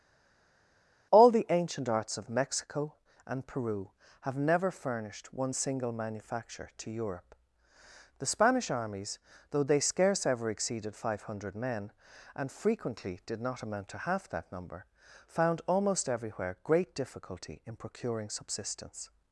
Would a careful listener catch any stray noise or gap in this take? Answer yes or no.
no